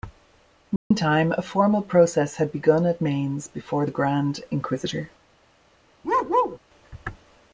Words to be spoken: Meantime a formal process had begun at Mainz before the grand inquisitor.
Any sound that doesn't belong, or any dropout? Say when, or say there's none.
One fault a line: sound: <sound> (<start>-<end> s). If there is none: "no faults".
sound: dropout (0.8-0.9 s)
sound: bark (6.0-6.6 s)